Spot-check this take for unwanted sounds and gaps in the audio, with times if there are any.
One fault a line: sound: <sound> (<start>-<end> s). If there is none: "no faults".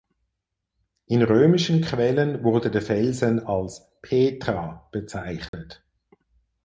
sound: dropout (5.5-5.5 s)